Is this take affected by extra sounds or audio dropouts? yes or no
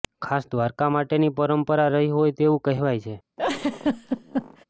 yes